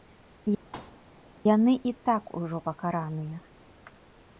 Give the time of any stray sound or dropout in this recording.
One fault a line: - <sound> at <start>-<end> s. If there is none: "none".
- thud at 0.7-1.0 s